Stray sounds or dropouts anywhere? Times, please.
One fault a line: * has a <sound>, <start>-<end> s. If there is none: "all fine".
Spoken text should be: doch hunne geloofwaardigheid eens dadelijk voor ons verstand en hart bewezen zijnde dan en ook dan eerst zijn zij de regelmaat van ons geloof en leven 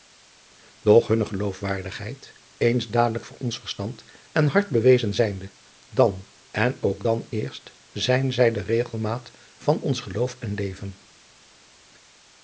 all fine